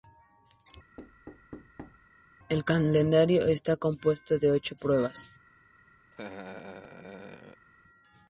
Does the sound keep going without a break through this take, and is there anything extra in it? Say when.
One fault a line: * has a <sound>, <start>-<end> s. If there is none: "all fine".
* has a thud, 1.0-2.1 s
* has a laugh, 6.1-7.7 s